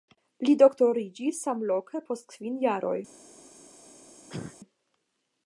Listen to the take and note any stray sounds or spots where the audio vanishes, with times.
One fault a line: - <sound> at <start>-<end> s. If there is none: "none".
- cough at 4.3-4.6 s